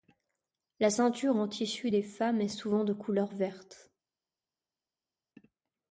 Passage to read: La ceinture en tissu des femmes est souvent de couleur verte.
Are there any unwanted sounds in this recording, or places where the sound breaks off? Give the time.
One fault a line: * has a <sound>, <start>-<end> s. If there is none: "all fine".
all fine